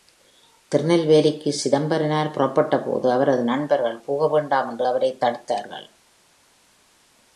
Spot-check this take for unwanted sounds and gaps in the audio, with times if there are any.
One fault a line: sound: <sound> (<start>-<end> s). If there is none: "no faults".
no faults